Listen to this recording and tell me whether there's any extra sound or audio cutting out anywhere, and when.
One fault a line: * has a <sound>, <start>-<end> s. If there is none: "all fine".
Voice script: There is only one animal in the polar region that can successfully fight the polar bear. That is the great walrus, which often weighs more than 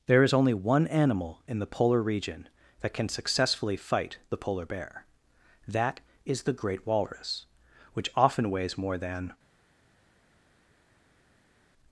all fine